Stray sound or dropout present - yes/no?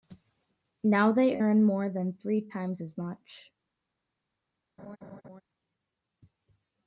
yes